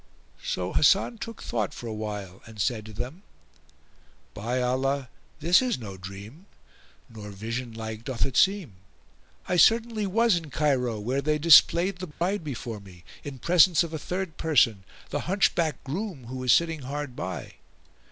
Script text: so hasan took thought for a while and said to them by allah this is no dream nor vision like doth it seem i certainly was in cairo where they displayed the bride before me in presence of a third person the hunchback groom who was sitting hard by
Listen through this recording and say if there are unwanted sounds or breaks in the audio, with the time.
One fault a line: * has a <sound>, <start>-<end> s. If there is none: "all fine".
* has a dropout, 12.1-12.2 s